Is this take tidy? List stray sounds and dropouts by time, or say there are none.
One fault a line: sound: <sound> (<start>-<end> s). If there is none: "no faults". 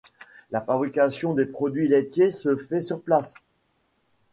no faults